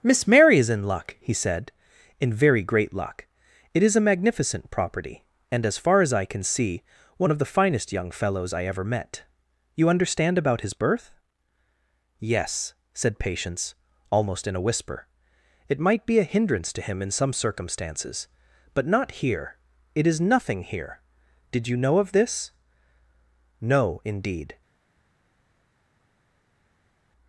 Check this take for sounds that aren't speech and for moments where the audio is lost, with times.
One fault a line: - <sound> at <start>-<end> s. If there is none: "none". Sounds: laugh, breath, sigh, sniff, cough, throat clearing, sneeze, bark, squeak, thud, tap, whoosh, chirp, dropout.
none